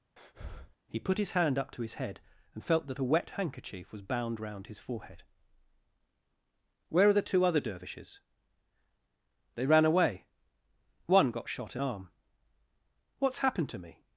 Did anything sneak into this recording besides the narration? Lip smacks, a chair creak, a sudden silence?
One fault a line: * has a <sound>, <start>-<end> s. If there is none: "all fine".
* has a breath, 0.2-0.8 s